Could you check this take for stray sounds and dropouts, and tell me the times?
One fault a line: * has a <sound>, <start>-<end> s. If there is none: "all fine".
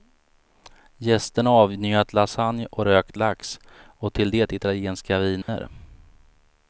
* has a dropout, 5.4-5.5 s